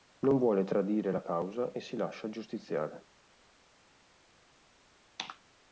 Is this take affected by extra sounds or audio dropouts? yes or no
no